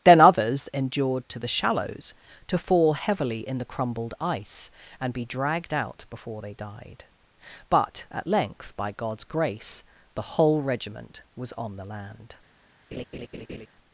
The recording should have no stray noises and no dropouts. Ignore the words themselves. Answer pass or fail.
fail